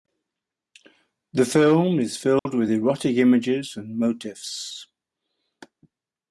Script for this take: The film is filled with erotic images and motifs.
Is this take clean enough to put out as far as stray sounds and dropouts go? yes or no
no